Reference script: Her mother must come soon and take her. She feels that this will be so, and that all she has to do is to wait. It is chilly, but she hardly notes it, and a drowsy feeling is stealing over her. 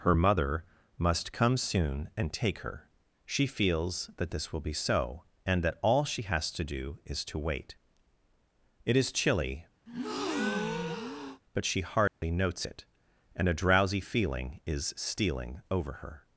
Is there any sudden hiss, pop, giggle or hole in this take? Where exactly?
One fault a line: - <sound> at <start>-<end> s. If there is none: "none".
- breath at 9.9-11.4 s
- dropout at 12.1-12.2 s